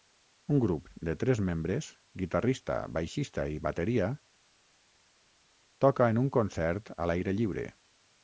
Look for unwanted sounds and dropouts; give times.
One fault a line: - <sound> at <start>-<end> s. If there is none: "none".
none